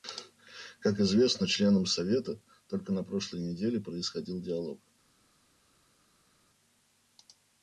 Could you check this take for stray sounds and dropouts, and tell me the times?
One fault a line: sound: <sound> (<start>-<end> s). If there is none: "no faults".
no faults